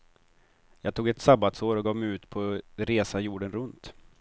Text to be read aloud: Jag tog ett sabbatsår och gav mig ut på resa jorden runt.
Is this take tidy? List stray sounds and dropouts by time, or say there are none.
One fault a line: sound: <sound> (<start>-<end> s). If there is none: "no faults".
no faults